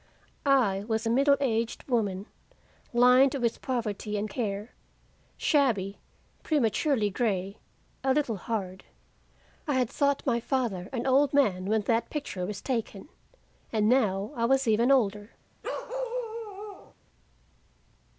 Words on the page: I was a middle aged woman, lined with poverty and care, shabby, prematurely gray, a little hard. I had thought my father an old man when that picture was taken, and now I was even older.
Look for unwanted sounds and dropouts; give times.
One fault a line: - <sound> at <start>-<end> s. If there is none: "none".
- bark at 15.6-16.9 s